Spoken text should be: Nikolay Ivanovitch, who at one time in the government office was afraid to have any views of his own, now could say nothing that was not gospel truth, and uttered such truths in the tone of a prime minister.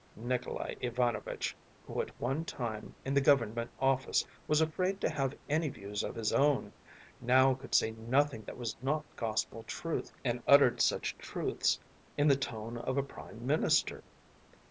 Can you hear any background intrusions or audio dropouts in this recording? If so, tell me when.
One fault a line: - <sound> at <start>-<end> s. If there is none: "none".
none